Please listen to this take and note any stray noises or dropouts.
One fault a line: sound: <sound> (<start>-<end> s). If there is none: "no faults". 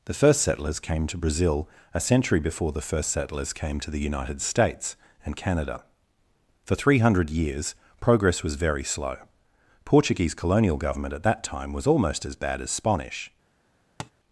sound: tap (14.0-14.1 s)